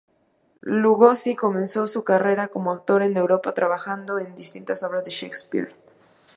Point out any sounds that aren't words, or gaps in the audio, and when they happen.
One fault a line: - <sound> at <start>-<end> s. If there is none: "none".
none